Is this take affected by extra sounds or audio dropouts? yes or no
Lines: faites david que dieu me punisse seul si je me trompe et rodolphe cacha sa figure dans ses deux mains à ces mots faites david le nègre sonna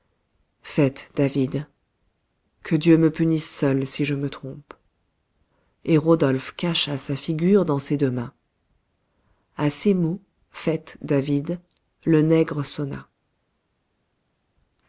no